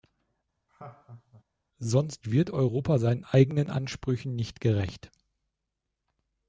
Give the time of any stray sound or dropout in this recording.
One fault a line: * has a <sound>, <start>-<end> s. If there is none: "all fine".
* has a laugh, 0.7-1.4 s